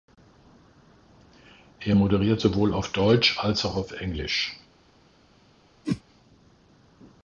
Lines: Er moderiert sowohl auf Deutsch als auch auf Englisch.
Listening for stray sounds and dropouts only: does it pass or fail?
fail